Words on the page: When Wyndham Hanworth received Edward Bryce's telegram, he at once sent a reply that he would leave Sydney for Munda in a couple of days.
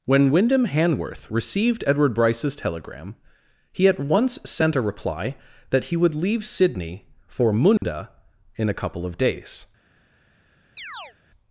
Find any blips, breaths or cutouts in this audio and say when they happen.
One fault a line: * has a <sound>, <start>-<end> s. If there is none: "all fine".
* has a dropout, 7.8-7.8 s
* has a chirp, 10.8-11.2 s